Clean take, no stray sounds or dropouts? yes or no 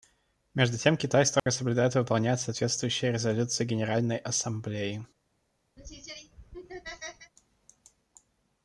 no